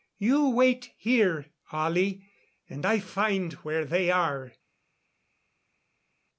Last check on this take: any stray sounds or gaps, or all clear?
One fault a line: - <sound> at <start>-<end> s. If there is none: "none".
none